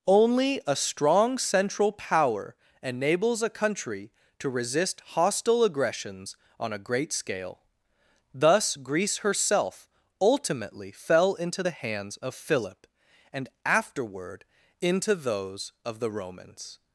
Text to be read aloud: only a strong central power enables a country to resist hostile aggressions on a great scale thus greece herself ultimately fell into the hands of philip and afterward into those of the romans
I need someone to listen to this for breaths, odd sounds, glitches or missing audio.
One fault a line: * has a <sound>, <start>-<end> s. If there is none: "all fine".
all fine